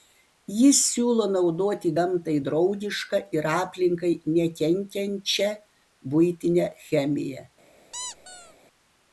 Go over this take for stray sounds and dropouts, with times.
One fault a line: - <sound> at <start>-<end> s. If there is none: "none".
- squeak at 7.9-8.6 s